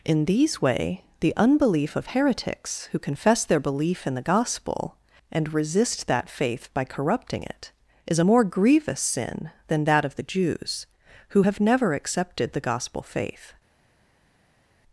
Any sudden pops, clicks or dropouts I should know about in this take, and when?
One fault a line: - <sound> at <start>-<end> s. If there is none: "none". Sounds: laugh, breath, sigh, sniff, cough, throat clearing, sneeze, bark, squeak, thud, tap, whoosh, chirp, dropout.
none